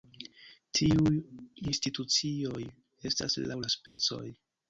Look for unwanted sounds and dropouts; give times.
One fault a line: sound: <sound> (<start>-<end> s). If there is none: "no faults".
sound: dropout (3.9-4.0 s)